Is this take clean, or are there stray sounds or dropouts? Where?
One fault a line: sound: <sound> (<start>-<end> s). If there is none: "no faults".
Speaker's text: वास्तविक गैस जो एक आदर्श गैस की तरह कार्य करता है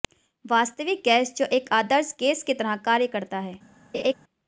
sound: laugh (3.9-4.1 s)